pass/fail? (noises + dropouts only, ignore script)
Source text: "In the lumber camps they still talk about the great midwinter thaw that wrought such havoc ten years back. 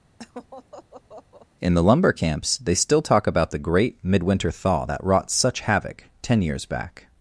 fail